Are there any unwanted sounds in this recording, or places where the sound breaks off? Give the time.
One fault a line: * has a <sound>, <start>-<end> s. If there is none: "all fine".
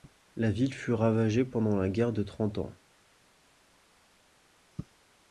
all fine